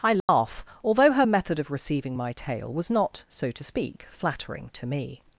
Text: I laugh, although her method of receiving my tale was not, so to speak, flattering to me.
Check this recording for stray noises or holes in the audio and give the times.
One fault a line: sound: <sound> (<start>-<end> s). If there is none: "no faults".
sound: dropout (0.2-0.3 s)